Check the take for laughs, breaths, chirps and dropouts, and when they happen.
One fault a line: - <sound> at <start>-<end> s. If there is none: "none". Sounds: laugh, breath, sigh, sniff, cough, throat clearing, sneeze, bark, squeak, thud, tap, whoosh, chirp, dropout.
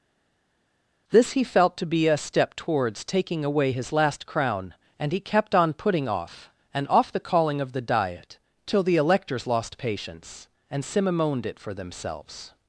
none